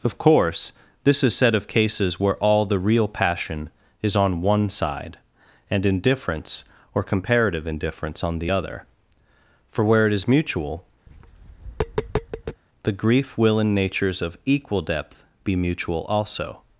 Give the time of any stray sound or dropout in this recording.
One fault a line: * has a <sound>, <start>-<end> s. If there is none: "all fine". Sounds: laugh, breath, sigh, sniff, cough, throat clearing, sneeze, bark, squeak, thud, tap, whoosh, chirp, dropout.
* has a tap, 11.1-12.6 s